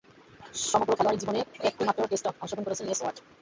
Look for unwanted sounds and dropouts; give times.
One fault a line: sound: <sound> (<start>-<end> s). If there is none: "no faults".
no faults